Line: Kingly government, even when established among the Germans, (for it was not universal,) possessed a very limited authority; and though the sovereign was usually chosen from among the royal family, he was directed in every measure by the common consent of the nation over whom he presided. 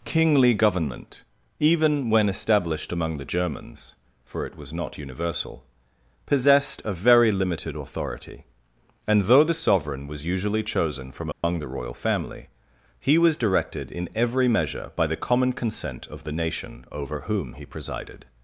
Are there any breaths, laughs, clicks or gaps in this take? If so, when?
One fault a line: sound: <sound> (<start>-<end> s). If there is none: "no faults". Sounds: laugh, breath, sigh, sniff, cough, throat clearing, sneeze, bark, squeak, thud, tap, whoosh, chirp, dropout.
sound: dropout (11.3-11.4 s)